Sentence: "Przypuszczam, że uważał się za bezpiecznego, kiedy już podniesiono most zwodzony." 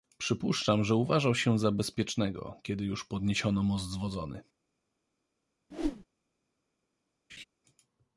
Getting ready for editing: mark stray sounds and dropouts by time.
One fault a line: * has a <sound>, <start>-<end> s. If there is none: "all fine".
* has a whoosh, 5.7-6.1 s
* has a laugh, 7.3-7.4 s